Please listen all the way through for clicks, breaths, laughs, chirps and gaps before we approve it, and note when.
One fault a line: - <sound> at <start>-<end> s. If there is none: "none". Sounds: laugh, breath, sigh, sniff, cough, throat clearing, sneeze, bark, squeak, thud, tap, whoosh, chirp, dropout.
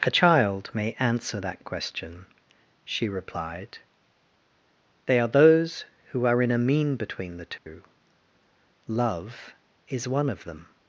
- dropout at 7.6-7.7 s